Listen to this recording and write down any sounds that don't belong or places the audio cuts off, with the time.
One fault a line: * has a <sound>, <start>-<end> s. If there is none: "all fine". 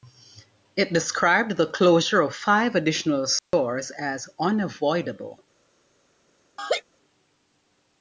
* has a dropout, 3.4-3.5 s
* has a laugh, 6.6-6.8 s